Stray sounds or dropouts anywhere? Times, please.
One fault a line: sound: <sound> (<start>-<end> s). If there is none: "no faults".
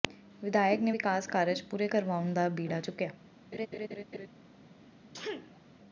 sound: laugh (3.5-4.3 s)
sound: sneeze (5.1-5.6 s)